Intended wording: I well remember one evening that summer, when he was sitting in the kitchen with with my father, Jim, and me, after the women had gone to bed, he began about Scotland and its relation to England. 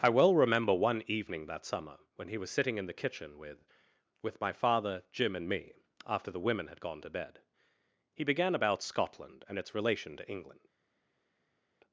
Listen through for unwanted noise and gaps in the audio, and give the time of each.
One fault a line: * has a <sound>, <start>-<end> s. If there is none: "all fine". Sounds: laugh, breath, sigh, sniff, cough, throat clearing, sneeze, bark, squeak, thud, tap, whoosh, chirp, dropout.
all fine